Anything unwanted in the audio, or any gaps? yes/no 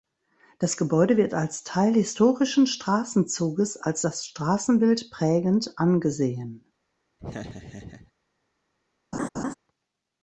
yes